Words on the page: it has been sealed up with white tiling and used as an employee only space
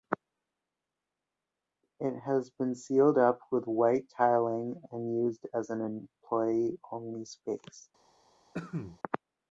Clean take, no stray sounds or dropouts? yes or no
no